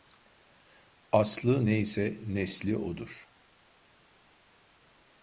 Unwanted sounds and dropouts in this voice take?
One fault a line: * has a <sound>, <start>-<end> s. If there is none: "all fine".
all fine